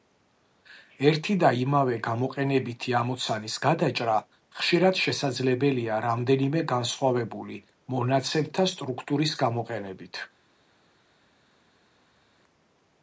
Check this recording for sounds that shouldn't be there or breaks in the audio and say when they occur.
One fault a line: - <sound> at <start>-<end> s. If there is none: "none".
none